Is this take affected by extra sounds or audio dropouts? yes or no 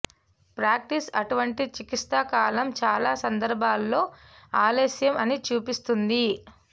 no